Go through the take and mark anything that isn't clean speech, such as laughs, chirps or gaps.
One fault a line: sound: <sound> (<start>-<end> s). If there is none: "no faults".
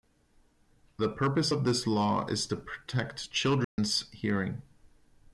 sound: dropout (3.6-3.8 s)